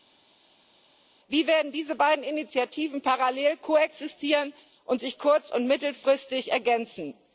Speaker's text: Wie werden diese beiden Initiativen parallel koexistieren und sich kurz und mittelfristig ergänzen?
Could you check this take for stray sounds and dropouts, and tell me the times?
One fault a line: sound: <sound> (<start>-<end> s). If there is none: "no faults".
no faults